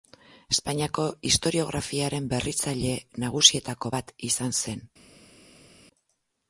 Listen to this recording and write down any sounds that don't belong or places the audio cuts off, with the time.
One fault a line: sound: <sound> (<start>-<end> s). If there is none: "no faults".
no faults